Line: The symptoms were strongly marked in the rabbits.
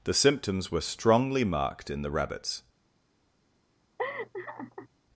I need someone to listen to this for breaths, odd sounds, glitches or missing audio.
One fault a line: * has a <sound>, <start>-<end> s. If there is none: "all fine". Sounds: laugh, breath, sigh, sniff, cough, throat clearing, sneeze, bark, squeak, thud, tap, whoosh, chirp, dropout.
* has a laugh, 4.0-4.9 s